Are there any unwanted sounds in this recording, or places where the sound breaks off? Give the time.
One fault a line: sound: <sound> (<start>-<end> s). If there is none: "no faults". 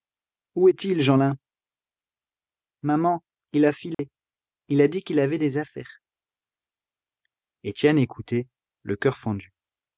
sound: dropout (3.9-4.0 s)